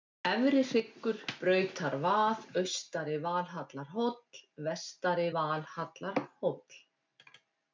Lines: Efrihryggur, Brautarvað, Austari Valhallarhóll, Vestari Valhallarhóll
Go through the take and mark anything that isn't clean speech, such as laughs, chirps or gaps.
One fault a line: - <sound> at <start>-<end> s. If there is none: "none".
none